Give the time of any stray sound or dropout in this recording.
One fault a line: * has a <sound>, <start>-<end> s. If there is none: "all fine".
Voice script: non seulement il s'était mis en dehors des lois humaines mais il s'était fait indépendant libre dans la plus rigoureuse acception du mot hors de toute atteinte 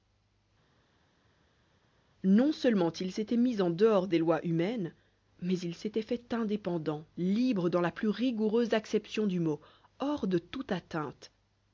all fine